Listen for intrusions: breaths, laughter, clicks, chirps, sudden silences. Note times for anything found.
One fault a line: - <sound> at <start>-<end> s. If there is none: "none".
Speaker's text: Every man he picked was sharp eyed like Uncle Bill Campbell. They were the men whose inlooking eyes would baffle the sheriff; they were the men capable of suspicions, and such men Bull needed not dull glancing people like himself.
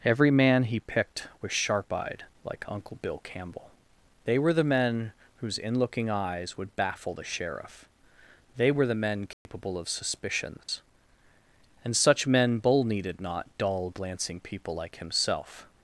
- dropout at 9.3-9.5 s
- dropout at 10.6-10.7 s